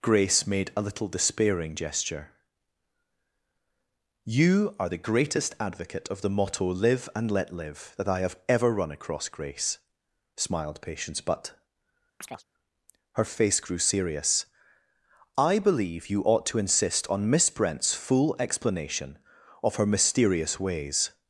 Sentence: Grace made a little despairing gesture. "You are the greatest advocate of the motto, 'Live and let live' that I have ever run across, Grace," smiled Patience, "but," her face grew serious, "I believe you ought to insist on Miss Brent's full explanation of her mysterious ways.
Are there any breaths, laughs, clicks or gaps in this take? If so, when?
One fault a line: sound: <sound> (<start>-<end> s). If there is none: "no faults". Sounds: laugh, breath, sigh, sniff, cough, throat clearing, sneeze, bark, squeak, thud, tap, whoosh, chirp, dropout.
sound: chirp (12.2-12.4 s)